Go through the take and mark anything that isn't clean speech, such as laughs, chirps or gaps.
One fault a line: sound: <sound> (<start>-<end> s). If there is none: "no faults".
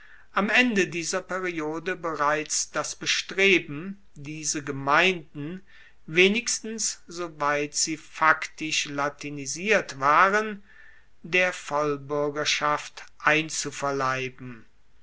no faults